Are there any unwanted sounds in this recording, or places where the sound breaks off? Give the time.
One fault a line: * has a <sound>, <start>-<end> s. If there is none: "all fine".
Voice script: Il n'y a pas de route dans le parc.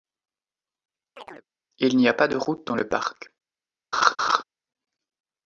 * has a chirp, 1.2-1.5 s
* has a laugh, 3.9-4.4 s